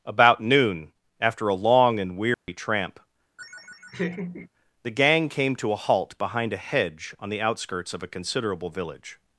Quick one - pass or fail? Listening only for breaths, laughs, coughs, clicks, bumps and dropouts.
fail